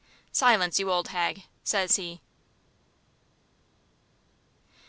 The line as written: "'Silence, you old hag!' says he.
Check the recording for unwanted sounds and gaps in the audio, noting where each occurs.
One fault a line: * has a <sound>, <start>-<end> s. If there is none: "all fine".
all fine